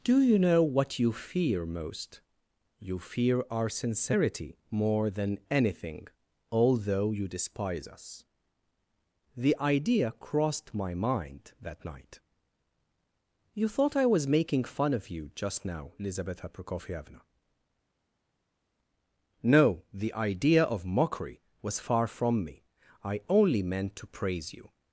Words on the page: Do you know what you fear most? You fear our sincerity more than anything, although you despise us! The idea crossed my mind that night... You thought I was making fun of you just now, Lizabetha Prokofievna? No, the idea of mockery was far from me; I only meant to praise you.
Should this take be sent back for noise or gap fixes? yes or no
no